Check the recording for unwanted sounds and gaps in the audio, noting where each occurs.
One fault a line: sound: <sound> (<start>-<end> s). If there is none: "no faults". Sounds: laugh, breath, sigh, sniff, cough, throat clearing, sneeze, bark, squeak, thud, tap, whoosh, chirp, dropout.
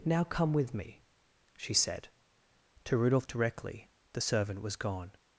no faults